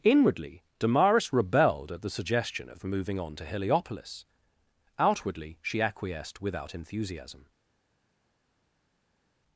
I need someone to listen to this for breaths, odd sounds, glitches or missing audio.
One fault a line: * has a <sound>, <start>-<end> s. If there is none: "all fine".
all fine